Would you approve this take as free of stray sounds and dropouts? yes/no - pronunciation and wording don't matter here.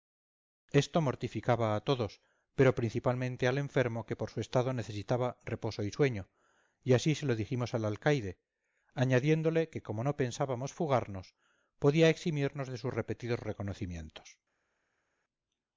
yes